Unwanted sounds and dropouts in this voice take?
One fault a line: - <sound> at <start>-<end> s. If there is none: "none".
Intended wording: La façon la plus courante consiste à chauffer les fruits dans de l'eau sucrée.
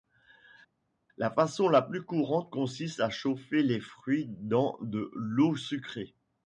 none